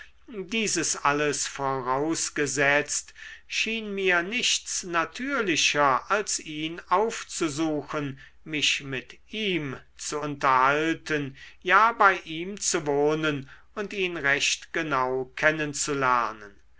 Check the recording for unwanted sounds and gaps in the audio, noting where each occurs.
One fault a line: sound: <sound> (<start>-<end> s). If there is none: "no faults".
no faults